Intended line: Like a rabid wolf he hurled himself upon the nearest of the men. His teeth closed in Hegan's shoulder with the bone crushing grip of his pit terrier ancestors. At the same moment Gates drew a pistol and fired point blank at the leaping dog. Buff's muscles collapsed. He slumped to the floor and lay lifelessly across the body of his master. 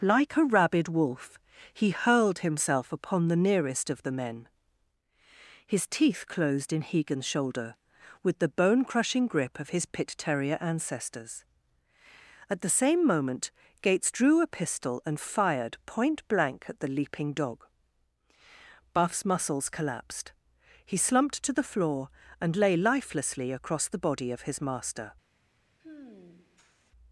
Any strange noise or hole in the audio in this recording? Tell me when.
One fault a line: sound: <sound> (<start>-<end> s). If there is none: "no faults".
sound: sigh (25.8-26.9 s)